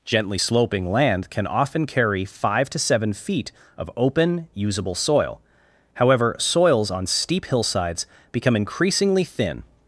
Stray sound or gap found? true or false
false